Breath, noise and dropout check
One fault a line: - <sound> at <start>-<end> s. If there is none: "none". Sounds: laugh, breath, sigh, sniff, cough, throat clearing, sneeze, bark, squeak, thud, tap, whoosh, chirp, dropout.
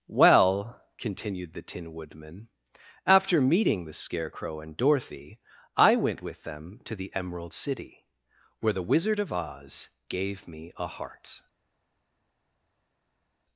none